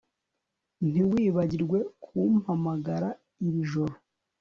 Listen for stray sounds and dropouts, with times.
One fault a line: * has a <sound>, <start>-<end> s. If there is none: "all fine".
all fine